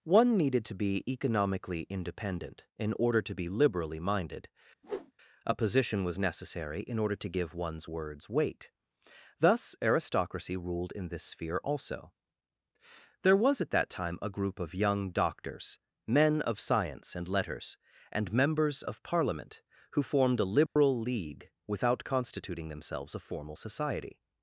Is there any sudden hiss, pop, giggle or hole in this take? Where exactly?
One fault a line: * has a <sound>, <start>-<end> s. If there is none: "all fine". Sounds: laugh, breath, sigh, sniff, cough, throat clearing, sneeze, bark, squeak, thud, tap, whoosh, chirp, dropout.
* has a whoosh, 4.8-5.1 s
* has a dropout, 20.7-20.8 s